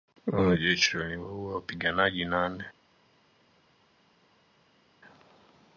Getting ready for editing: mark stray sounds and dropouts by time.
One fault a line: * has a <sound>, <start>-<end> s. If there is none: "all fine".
all fine